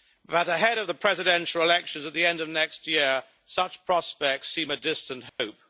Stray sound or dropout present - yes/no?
yes